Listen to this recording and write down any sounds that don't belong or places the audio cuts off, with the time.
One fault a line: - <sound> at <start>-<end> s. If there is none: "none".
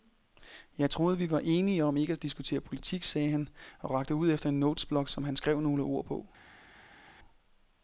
none